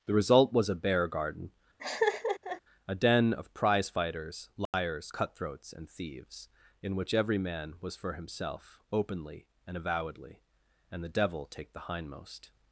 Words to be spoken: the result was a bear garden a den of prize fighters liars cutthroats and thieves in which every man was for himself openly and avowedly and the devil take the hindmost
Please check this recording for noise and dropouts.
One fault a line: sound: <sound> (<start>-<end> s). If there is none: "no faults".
sound: laugh (1.8-2.6 s)
sound: dropout (4.7-4.7 s)